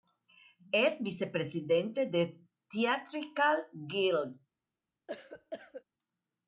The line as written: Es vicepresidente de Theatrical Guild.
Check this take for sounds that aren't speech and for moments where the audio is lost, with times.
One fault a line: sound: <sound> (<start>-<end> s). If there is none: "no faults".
sound: cough (5.1-5.8 s)